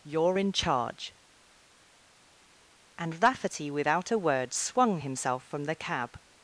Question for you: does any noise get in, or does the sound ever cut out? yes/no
no